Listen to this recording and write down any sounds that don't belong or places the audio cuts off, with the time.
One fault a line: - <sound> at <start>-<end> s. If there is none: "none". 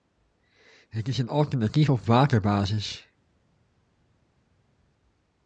none